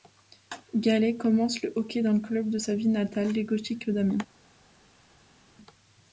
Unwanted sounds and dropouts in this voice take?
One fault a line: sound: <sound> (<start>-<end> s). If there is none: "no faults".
no faults